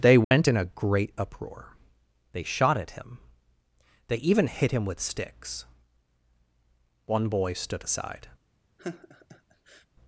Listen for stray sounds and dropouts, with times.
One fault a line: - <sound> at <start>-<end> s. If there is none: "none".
- dropout at 0.2-0.3 s
- laugh at 8.8-9.9 s